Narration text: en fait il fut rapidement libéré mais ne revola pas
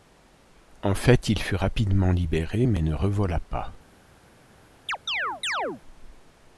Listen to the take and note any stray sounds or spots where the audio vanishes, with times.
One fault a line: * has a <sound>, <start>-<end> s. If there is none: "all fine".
* has a chirp, 4.9-5.8 s